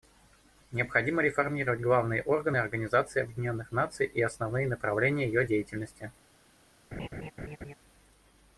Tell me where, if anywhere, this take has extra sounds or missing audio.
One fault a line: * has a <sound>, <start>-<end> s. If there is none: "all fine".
* has a laugh, 6.9-7.7 s